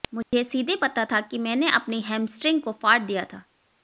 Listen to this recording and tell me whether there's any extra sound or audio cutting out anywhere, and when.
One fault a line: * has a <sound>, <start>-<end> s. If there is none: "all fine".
* has a dropout, 0.2-0.3 s